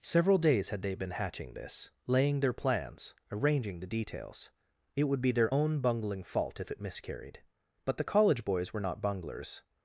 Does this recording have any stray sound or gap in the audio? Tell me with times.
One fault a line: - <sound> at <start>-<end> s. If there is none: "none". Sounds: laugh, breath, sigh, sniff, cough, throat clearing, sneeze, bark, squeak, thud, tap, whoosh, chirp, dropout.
none